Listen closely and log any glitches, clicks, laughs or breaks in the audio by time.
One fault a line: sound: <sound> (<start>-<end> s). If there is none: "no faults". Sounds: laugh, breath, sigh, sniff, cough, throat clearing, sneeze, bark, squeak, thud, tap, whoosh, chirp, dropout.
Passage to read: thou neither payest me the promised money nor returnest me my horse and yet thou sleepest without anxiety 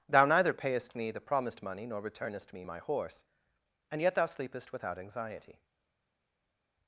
no faults